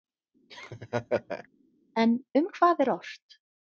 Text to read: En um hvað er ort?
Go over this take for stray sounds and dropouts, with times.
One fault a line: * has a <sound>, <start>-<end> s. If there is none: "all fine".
* has a laugh, 0.5-1.5 s